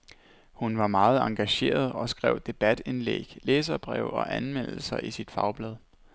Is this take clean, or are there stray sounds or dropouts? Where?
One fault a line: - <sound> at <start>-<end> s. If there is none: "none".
none